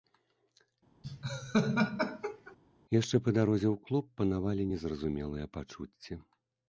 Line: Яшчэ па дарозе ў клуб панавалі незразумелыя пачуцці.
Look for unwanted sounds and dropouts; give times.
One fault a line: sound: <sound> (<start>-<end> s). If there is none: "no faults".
sound: laugh (1.0-2.6 s)